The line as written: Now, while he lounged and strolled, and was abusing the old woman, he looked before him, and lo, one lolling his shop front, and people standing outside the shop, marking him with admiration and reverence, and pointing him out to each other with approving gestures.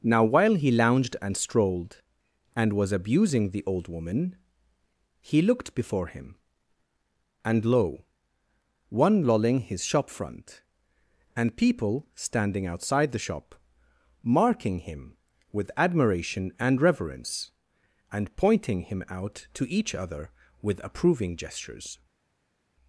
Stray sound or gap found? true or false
false